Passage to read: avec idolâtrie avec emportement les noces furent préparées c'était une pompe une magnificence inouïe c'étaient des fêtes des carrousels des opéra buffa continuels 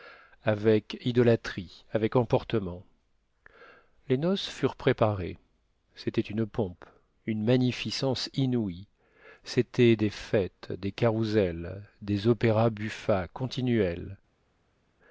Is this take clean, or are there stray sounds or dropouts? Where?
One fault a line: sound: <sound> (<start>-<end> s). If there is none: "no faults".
no faults